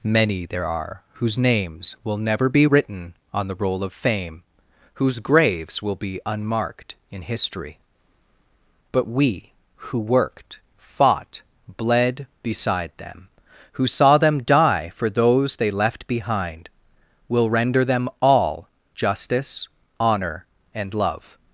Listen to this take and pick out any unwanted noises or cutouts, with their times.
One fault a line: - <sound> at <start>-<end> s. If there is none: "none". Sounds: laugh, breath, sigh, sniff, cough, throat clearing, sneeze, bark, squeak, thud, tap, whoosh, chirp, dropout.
none